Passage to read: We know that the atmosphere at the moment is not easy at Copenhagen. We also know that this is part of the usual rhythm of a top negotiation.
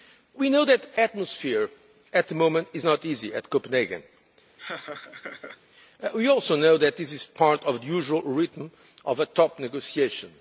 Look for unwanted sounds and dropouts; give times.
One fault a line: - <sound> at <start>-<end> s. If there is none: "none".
- laugh at 4.6-5.6 s